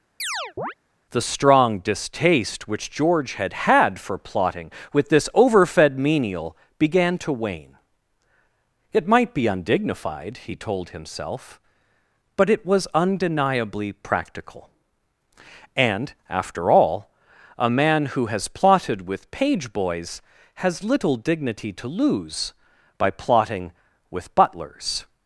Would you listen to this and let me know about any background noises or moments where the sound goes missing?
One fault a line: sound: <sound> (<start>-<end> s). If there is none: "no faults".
sound: chirp (0.2-0.7 s)